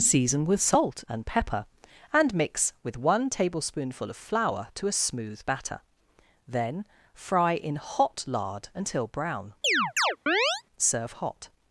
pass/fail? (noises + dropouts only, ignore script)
fail